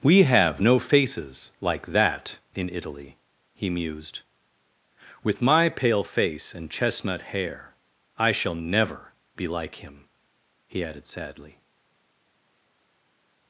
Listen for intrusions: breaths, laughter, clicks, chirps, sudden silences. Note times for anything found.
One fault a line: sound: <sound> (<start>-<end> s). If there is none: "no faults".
no faults